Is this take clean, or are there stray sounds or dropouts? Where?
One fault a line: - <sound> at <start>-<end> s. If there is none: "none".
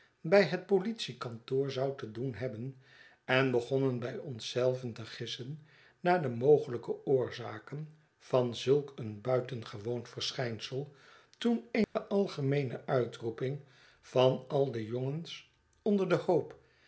- dropout at 11.8-12.0 s